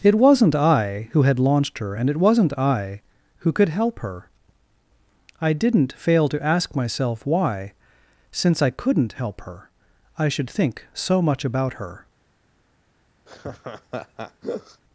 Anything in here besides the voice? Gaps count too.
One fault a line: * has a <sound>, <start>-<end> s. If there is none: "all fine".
* has a laugh, 13.3-14.8 s